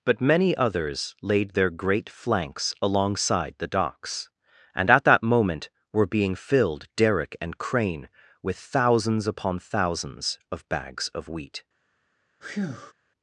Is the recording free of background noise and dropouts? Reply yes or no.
no